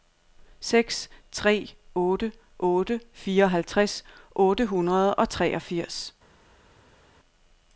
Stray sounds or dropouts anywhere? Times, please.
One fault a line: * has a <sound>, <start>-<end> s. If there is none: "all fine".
all fine